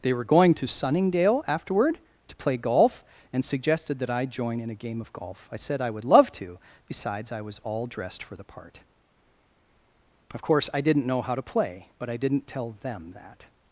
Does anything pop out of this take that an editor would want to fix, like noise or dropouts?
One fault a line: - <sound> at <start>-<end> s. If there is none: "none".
none